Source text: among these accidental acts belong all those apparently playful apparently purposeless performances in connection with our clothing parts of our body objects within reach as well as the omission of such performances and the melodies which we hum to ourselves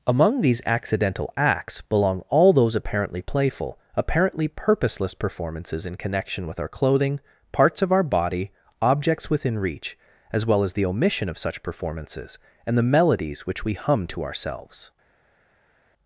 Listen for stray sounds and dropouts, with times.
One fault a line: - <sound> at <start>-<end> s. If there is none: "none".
none